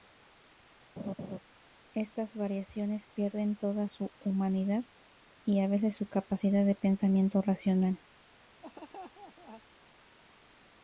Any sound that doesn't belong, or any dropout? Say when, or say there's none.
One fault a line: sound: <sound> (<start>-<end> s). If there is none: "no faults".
sound: laugh (1.0-1.4 s)
sound: laugh (8.6-9.6 s)